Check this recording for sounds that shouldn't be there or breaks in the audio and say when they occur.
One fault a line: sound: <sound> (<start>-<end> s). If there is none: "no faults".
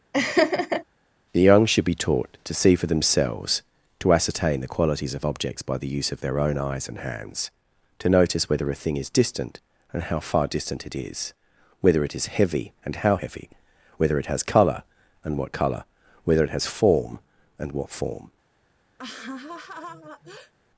sound: laugh (0.1-0.8 s)
sound: laugh (19.0-20.5 s)